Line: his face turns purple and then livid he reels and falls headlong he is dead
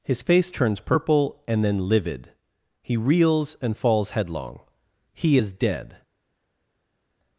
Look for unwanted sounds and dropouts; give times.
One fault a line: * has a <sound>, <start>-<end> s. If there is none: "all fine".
all fine